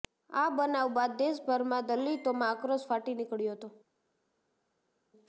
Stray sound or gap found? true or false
false